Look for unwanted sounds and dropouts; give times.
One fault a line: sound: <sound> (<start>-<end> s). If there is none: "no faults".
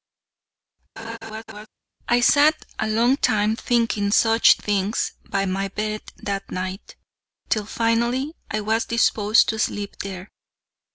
sound: laugh (1.0-1.7 s)